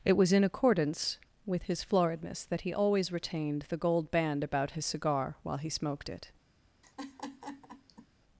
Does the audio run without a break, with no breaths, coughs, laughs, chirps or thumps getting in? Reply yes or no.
no